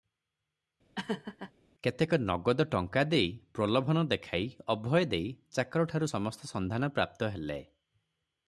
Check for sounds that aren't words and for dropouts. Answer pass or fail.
fail